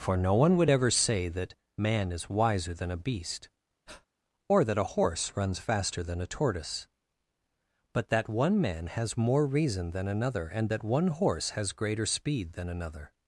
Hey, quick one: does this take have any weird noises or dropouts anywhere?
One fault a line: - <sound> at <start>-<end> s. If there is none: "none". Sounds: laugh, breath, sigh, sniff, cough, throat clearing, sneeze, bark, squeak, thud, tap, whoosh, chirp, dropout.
- breath at 3.9-4.1 s